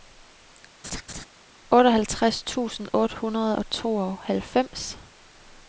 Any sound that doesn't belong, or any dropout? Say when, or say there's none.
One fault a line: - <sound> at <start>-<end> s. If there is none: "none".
- laugh at 0.8-1.3 s